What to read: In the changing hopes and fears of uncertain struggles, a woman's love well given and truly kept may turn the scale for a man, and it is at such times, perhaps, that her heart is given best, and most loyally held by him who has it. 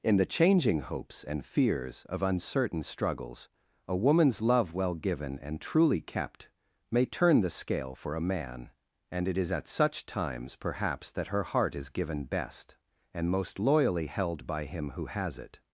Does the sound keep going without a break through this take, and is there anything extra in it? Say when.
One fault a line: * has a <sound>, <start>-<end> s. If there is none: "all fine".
all fine